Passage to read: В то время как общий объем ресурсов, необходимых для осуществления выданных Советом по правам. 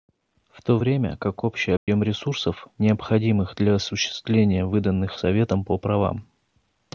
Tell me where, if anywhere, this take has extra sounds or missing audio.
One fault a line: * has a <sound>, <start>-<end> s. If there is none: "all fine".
* has a dropout, 1.8-1.9 s